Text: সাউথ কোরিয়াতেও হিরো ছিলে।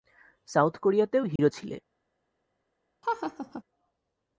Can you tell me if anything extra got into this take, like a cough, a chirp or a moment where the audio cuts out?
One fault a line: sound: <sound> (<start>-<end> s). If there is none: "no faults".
sound: dropout (1.4-1.4 s)
sound: laugh (3.0-3.6 s)